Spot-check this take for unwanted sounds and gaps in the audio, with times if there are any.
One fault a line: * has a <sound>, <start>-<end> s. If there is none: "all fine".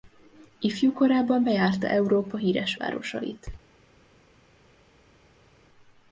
all fine